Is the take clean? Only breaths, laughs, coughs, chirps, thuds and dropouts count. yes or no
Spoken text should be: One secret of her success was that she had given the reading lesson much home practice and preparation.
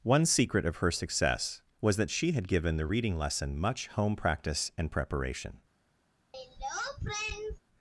no